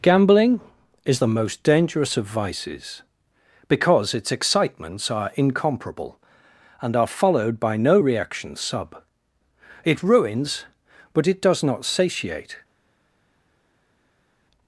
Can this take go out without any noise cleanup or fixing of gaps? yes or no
yes